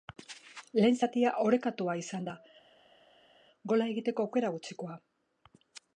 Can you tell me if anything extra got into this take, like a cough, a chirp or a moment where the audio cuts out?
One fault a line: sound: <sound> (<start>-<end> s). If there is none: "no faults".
no faults